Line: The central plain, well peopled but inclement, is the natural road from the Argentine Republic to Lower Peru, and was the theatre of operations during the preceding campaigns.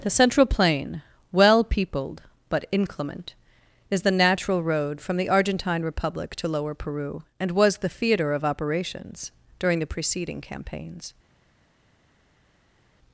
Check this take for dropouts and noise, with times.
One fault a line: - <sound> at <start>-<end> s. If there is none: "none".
none